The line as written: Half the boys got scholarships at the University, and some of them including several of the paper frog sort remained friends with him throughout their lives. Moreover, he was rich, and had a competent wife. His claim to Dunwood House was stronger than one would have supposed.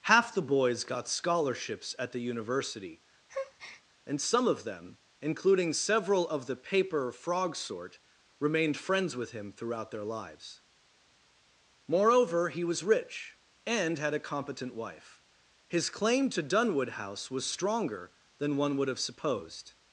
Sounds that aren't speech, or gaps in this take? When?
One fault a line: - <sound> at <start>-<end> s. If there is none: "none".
- breath at 3.3-3.8 s